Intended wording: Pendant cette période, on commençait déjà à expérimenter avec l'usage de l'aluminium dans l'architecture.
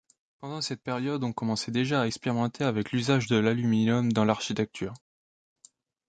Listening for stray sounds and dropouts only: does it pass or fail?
pass